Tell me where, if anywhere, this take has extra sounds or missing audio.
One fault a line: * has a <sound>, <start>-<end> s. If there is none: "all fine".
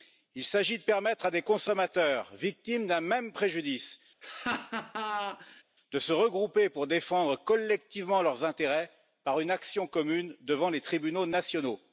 * has a laugh, 4.2-5.6 s